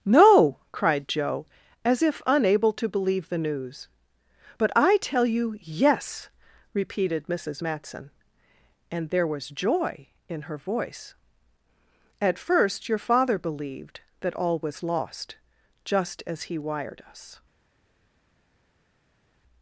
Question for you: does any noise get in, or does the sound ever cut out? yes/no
no